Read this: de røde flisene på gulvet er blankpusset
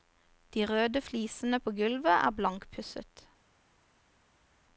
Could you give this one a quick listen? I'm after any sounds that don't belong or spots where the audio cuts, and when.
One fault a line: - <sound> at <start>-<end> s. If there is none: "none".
none